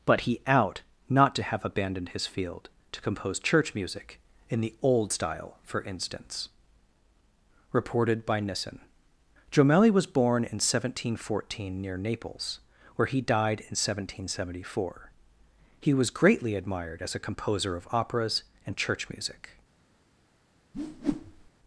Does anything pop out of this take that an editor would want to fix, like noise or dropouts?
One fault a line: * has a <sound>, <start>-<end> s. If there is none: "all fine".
* has a whoosh, 20.7-21.5 s